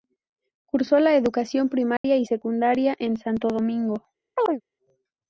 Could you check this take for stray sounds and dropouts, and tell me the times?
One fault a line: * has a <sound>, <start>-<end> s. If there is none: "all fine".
* has a dropout, 2.0-2.0 s
* has a chirp, 4.4-4.6 s